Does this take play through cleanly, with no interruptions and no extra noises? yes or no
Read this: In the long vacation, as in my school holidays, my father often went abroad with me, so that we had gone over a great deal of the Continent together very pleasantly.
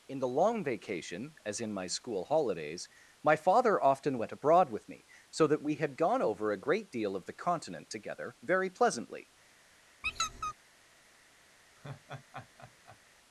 no